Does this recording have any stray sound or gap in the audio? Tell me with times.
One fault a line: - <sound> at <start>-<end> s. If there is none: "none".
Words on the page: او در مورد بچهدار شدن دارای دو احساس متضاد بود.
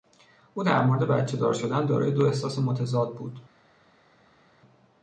none